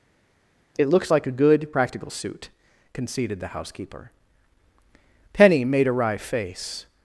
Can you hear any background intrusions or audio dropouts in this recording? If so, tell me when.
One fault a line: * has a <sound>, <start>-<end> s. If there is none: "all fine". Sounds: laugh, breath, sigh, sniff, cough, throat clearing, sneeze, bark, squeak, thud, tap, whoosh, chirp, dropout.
all fine